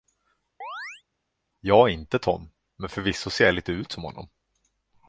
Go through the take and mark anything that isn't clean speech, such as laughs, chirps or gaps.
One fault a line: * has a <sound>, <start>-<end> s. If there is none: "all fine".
* has a chirp, 0.6-1.0 s